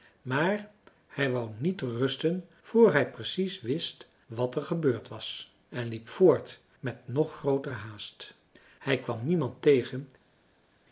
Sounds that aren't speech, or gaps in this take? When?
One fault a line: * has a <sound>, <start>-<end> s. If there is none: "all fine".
all fine